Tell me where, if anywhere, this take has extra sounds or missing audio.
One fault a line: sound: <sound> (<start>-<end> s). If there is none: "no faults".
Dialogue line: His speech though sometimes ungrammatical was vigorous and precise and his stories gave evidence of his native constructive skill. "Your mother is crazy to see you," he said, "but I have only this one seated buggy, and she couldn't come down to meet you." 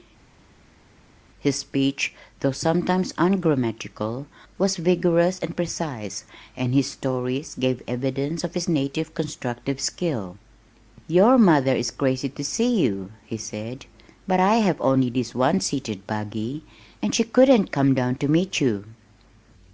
no faults